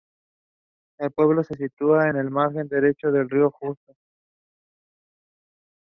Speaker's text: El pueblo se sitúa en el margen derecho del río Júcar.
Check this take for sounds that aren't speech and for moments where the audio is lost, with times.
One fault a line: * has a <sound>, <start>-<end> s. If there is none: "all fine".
all fine